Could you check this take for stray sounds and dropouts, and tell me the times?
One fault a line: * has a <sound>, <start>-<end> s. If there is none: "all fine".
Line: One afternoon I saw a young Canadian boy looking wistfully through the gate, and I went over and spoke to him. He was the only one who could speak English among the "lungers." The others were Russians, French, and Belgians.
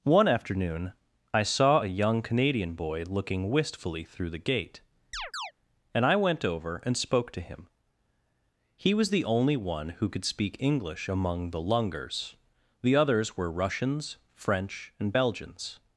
* has a chirp, 5.1-5.5 s